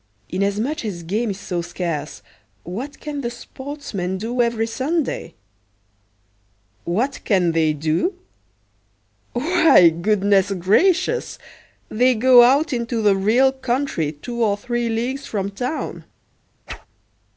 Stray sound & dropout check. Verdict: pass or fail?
fail